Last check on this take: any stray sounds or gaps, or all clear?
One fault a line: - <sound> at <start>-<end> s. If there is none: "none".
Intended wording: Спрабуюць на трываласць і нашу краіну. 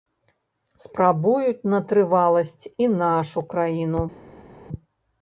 none